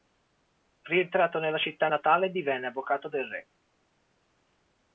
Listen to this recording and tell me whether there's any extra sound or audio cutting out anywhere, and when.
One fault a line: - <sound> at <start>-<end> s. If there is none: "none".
none